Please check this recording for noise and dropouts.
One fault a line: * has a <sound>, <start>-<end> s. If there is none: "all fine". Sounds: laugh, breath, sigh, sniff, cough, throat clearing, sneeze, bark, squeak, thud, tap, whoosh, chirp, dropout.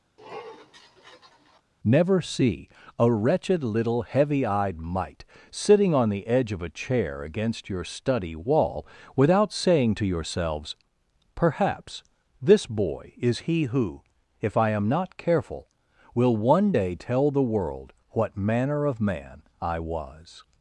* has a sniff, 0.2-1.6 s